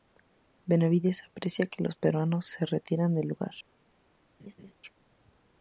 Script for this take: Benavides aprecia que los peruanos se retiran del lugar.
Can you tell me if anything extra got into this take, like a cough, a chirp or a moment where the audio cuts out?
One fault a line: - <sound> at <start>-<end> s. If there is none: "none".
- laugh at 4.4-4.7 s